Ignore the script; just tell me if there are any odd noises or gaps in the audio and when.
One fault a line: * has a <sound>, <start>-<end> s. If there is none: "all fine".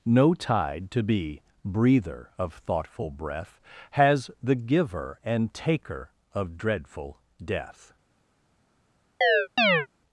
* has a chirp, 9.2-9.9 s